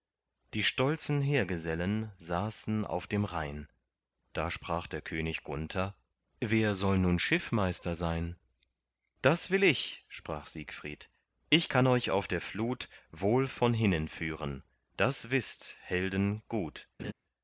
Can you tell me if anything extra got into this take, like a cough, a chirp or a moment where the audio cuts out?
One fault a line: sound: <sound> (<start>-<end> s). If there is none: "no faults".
sound: laugh (17.0-17.1 s)